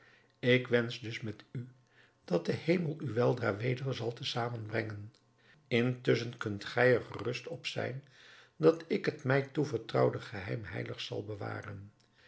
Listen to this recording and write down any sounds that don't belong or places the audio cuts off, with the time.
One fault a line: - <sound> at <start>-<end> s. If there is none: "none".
none